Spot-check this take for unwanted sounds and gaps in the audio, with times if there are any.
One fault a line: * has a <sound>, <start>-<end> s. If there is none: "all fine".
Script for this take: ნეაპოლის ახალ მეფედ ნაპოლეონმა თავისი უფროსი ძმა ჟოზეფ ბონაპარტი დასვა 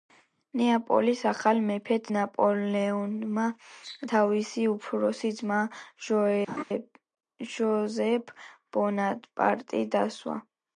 * has a laugh, 6.5-6.6 s